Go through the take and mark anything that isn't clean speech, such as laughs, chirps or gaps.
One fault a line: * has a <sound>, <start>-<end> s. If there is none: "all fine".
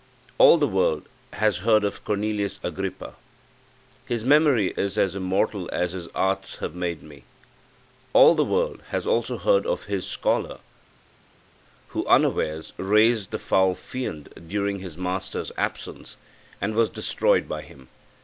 all fine